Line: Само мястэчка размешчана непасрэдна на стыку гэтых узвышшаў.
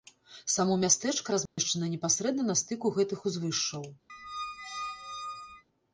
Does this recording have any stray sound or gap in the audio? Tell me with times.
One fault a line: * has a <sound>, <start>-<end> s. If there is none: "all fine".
* has a dropout, 1.5-1.6 s
* has a squeak, 4.1-5.6 s